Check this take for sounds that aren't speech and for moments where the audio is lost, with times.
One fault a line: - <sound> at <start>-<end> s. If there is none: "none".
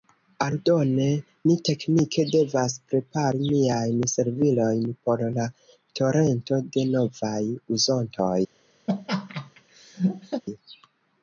- laugh at 8.9-10.4 s